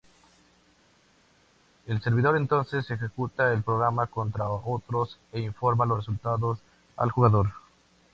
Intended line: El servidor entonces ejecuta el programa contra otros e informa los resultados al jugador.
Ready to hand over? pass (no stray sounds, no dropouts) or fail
pass